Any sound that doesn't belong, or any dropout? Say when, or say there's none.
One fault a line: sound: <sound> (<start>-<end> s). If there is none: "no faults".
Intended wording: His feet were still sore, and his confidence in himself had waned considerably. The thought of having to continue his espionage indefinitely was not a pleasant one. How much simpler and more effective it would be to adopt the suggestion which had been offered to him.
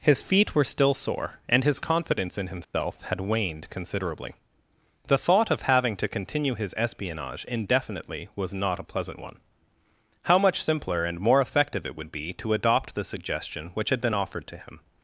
sound: dropout (2.6-2.7 s)